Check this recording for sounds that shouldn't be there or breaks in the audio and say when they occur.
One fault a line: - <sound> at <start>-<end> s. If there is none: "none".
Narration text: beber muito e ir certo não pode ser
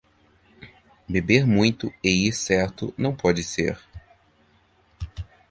none